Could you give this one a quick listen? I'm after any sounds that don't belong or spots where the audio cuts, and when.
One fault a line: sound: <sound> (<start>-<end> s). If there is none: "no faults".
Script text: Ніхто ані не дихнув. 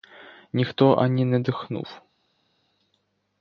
no faults